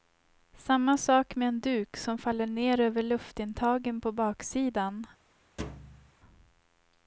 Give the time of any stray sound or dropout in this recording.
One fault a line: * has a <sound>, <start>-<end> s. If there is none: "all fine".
* has a thud, 5.6-6.1 s